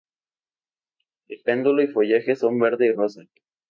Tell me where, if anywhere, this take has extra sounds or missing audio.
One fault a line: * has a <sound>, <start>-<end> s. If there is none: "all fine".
all fine